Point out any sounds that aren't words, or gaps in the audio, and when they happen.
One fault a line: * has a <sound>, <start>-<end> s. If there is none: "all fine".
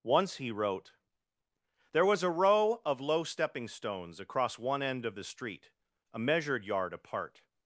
all fine